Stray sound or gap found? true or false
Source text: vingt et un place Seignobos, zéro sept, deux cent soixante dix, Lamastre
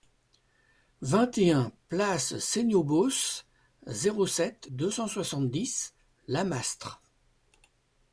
false